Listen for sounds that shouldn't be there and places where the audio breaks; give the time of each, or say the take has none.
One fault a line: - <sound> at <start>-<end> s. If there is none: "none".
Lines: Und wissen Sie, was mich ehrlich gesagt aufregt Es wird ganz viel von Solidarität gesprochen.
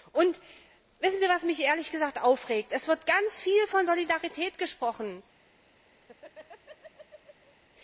- laugh at 6.0-7.6 s